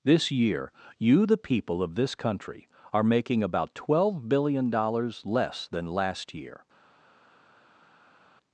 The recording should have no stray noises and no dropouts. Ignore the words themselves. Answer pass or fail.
pass